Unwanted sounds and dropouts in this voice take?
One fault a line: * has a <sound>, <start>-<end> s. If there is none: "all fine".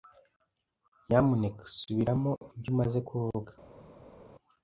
all fine